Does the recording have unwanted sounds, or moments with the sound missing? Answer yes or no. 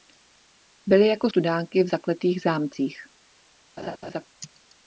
yes